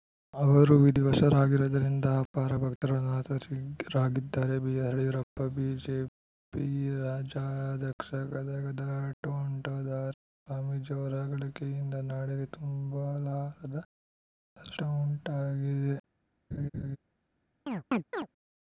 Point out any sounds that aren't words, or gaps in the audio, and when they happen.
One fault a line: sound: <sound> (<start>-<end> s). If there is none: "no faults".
sound: laugh (16.5-17.0 s)
sound: chirp (17.7-18.3 s)